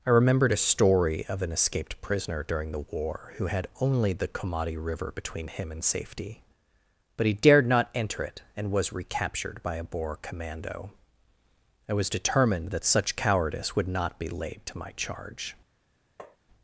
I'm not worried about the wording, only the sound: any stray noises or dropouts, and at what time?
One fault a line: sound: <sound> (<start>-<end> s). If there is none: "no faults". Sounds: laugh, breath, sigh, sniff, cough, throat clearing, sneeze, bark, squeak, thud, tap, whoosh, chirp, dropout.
sound: tap (16.2-16.4 s)